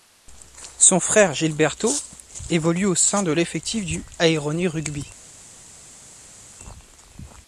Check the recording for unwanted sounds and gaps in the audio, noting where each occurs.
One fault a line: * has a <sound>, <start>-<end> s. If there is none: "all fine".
all fine